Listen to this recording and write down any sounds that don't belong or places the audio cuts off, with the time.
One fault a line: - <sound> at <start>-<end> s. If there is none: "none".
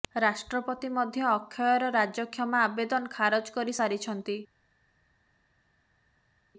none